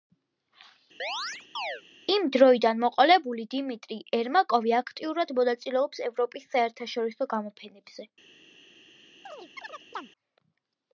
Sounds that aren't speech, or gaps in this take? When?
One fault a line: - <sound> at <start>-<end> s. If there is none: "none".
- chirp at 1.0-1.8 s
- chirp at 9.3-10.1 s